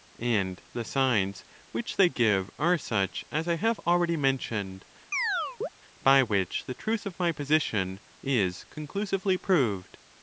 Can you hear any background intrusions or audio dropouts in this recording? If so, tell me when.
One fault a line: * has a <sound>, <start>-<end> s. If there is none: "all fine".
* has a chirp, 5.1-5.7 s